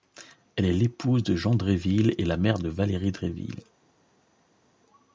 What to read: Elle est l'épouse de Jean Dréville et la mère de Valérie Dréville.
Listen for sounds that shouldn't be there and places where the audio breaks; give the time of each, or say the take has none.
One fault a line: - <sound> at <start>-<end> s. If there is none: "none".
none